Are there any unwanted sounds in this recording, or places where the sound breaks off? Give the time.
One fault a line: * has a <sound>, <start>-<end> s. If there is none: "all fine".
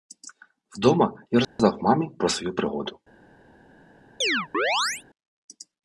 * has a dropout, 1.4-1.6 s
* has a chirp, 4.2-5.0 s